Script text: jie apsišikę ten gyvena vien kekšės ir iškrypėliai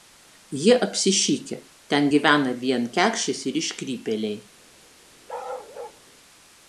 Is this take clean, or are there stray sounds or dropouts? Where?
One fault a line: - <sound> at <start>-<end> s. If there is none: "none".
- bark at 5.3-6.0 s